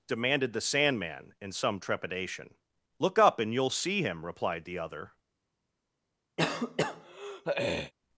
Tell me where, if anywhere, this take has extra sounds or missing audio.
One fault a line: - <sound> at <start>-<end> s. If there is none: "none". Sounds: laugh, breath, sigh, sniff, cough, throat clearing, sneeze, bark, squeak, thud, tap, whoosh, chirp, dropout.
- throat clearing at 6.4-7.9 s